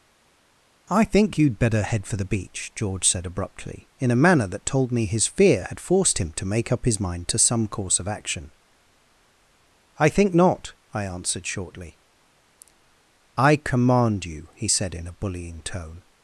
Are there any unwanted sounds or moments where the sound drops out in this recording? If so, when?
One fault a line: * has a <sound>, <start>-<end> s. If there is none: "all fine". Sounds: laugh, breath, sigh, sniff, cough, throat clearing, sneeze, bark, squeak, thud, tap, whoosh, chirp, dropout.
all fine